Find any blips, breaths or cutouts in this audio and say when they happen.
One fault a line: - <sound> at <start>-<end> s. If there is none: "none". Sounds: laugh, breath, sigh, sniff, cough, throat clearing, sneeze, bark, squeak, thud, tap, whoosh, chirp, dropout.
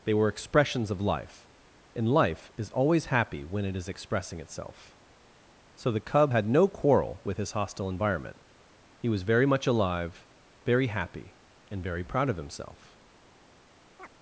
- chirp at 14.0-14.1 s